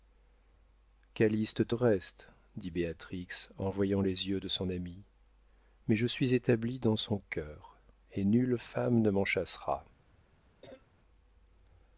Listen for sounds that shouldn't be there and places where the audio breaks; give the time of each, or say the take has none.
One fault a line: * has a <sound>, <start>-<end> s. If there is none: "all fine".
* has a cough, 10.6-10.9 s